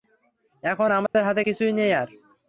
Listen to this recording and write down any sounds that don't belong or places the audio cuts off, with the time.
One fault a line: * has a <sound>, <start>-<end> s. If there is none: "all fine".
* has a dropout, 1.1-1.1 s